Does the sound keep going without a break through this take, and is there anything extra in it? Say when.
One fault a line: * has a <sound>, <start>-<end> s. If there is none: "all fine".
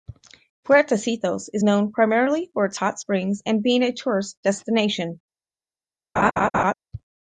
* has a laugh, 6.2-6.7 s